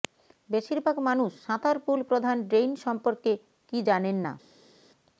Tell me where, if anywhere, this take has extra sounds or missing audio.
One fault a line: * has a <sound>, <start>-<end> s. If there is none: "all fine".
all fine